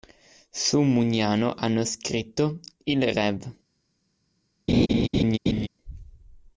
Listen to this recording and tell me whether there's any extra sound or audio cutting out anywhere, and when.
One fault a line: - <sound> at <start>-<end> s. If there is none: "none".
- laugh at 4.7-5.7 s